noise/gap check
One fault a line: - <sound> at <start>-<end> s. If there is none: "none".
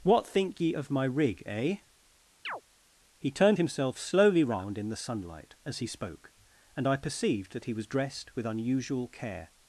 - chirp at 2.4-2.6 s